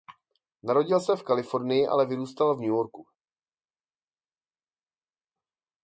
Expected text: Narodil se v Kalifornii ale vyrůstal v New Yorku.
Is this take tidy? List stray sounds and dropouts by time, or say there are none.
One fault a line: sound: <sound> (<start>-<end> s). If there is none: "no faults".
no faults